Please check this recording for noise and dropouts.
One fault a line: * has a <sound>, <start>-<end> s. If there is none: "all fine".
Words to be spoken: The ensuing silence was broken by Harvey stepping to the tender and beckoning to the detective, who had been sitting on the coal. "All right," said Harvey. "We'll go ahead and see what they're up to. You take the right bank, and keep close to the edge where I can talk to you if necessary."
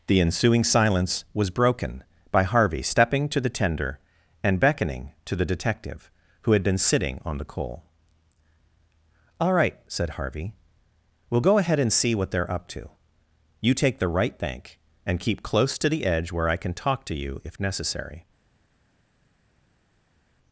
all fine